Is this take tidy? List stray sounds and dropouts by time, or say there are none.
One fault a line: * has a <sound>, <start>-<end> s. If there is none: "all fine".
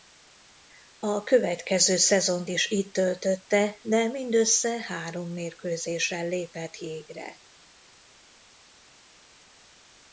all fine